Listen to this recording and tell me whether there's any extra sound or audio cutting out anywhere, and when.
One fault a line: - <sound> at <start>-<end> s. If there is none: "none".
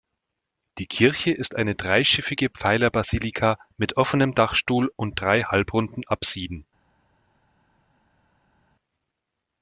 none